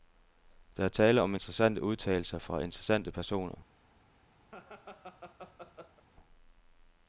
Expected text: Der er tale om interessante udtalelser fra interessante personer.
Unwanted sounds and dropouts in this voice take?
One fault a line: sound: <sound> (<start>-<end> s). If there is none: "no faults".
sound: laugh (4.5-6.0 s)